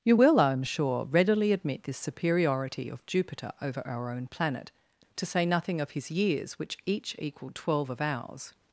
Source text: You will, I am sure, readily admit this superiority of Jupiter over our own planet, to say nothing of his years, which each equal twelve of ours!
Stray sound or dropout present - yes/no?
no